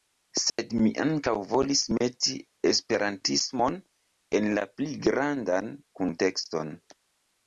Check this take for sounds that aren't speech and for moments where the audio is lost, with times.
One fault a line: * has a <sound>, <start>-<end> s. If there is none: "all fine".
* has a dropout, 0.5-0.6 s